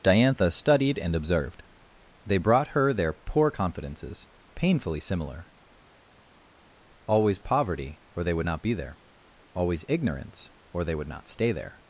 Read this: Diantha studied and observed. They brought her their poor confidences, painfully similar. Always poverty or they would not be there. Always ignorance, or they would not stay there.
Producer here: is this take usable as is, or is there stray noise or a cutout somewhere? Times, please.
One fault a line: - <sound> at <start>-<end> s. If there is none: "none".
none